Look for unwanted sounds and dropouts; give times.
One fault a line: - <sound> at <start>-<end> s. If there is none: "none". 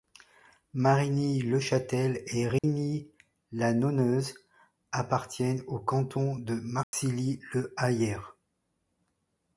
- dropout at 2.6-2.6 s
- dropout at 6.8-6.9 s